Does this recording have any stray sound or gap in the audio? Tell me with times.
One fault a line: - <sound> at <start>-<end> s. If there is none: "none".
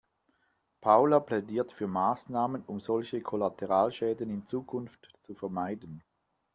none